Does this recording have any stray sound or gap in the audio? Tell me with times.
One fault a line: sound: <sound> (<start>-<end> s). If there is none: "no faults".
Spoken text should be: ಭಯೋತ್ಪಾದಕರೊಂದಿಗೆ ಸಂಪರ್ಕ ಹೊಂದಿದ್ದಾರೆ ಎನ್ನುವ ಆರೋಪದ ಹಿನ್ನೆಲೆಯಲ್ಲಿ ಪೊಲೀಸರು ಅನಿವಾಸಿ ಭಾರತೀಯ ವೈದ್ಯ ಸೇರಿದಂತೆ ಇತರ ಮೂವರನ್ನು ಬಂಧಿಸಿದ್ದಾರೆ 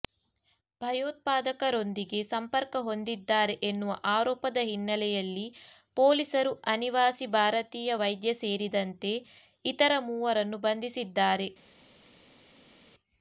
no faults